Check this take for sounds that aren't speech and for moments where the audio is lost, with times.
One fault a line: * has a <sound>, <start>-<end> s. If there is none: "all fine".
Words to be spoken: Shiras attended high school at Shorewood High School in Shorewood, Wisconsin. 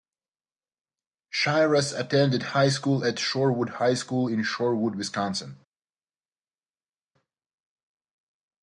all fine